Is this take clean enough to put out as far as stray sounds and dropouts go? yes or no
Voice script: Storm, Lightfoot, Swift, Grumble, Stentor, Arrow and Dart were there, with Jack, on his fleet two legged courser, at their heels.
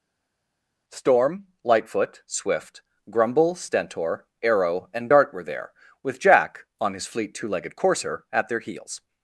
yes